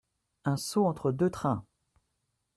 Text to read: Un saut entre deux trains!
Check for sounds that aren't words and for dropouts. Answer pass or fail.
pass